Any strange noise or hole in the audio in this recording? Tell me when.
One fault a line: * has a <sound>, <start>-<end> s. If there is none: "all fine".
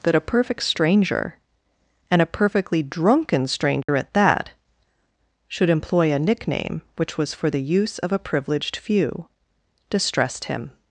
* has a dropout, 3.8-3.9 s